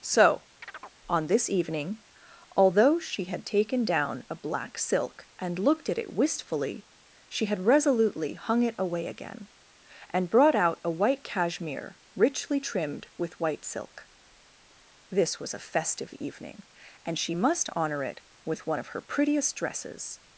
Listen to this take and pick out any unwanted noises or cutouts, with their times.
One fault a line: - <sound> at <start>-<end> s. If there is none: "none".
- chirp at 0.6-1.0 s